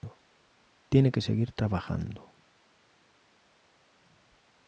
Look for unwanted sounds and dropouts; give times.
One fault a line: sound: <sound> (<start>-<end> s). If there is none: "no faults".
no faults